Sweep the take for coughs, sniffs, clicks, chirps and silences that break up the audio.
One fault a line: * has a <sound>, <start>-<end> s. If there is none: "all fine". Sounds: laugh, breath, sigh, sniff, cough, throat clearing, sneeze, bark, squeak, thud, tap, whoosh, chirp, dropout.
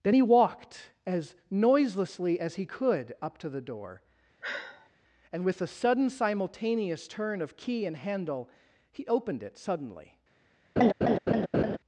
* has a sigh, 4.4-4.9 s
* has a laugh, 10.8-11.8 s